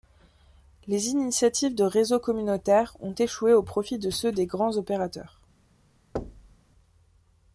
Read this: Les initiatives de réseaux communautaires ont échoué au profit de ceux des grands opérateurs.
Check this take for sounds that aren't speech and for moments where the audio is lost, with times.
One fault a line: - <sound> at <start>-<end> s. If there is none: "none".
- thud at 6.2-6.6 s